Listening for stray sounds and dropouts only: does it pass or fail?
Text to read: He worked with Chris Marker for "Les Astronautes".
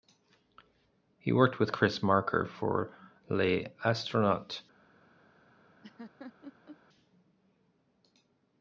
fail